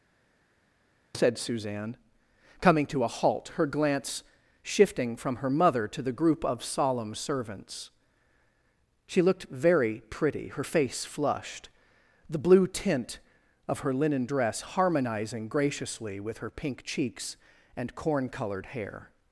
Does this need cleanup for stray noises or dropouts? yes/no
no